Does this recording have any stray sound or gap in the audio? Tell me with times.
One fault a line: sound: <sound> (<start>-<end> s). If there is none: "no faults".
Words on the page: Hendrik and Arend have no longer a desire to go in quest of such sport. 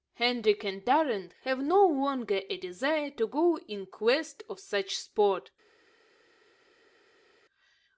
no faults